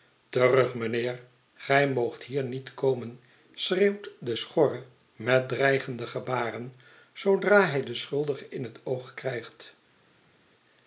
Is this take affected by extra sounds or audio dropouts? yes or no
no